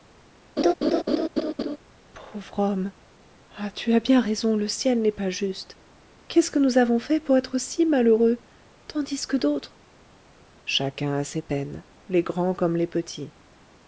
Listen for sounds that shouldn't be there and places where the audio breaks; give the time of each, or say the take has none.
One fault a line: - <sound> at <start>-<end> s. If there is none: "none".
- laugh at 0.6-1.8 s